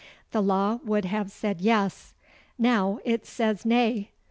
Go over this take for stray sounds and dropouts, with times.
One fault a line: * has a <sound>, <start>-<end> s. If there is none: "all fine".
all fine